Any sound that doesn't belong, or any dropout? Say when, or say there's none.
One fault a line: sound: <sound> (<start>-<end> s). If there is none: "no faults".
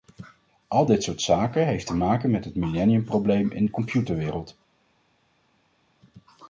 no faults